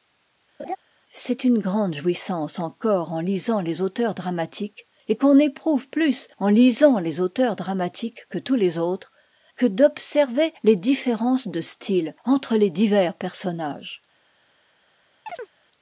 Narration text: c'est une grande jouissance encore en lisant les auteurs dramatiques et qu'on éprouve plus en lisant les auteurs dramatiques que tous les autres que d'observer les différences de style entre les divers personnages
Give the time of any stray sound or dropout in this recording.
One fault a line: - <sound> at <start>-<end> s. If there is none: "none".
- laugh at 0.6-0.8 s
- chirp at 15.3-15.5 s